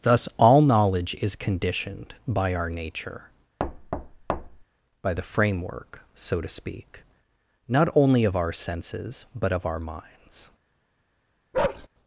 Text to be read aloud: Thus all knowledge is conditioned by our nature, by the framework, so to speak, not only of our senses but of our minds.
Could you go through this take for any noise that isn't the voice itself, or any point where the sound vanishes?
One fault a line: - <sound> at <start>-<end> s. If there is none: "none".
- thud at 3.6-4.6 s
- bark at 11.5-11.9 s